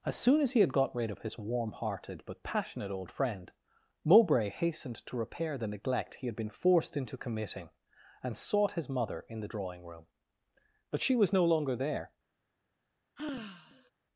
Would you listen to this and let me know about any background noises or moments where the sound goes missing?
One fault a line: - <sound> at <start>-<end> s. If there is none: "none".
- sigh at 13.2-13.9 s